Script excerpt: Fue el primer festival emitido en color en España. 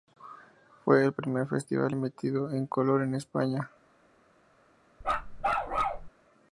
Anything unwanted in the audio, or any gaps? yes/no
yes